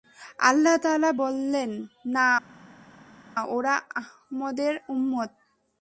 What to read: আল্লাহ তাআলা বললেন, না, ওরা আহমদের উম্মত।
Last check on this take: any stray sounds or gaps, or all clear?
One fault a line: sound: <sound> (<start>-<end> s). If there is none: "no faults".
no faults